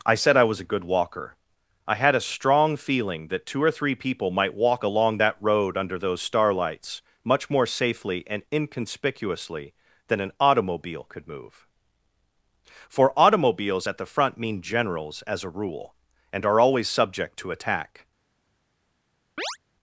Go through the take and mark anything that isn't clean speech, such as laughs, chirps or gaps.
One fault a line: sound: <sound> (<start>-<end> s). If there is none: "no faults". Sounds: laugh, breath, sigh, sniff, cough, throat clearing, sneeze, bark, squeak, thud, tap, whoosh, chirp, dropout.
sound: chirp (19.4-19.6 s)